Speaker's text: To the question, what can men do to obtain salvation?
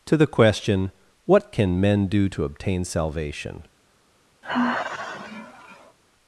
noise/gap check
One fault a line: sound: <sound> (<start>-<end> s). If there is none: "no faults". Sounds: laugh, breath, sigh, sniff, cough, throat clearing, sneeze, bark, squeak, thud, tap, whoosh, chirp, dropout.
sound: sigh (4.4-6.0 s)